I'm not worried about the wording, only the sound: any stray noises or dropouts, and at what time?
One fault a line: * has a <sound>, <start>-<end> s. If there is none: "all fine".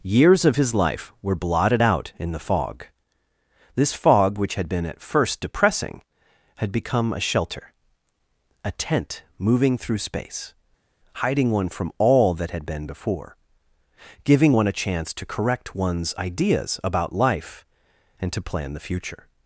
all fine